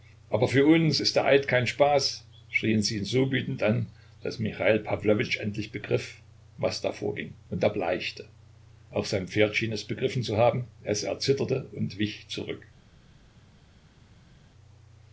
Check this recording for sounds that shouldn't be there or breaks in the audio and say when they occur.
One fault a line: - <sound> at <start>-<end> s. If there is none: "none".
none